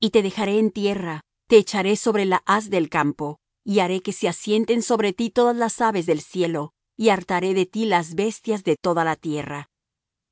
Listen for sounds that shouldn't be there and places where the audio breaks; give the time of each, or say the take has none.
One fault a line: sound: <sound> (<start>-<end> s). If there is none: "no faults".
no faults